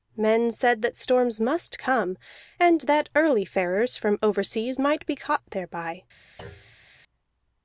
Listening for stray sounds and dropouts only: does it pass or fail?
fail